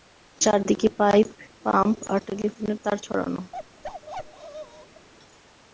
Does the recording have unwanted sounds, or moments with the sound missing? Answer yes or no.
yes